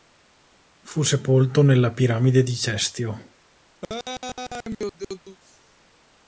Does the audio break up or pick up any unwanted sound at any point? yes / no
yes